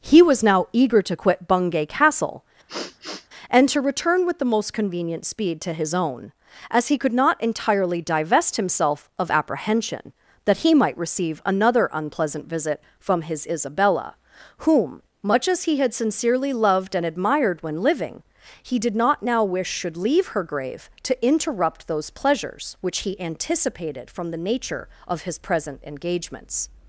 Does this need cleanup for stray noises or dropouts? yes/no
yes